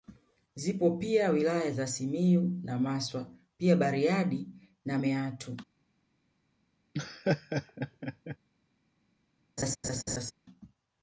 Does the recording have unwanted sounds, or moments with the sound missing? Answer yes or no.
yes